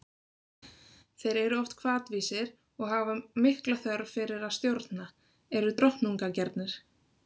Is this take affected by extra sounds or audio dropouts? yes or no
no